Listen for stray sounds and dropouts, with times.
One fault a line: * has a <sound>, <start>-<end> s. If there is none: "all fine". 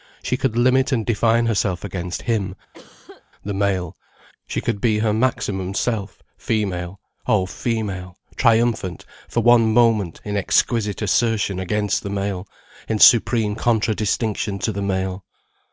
* has a cough, 2.7-3.2 s